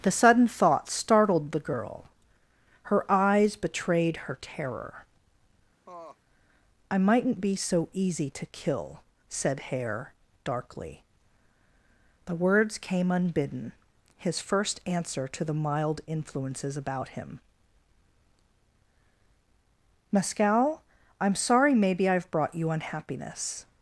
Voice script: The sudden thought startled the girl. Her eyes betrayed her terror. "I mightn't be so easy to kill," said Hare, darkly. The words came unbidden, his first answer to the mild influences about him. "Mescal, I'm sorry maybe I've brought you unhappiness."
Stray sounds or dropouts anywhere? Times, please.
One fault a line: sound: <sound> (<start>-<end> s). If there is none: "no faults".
sound: laugh (5.9-6.2 s)